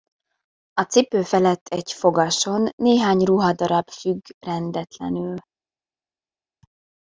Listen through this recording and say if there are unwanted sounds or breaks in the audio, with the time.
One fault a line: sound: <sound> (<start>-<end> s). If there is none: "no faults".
no faults